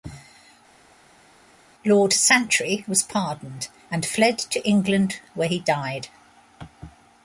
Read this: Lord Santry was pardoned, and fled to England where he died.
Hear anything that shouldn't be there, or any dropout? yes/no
no